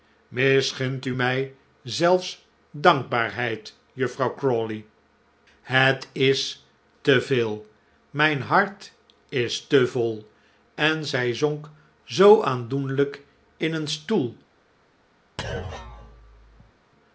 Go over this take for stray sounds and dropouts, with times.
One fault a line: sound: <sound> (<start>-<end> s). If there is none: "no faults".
sound: thud (15.4-16.7 s)